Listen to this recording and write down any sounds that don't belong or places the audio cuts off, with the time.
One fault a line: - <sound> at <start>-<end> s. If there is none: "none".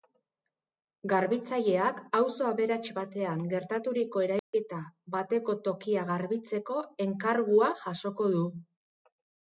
- dropout at 4.4-4.5 s